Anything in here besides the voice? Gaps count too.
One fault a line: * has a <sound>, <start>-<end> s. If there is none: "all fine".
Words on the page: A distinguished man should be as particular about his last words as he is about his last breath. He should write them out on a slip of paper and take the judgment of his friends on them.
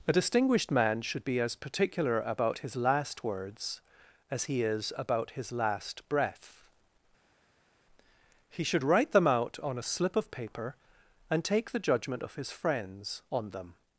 all fine